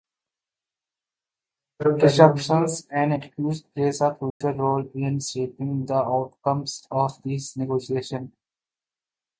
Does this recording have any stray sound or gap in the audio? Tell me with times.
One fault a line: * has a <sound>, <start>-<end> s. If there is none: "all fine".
* has a dropout, 4.3-4.4 s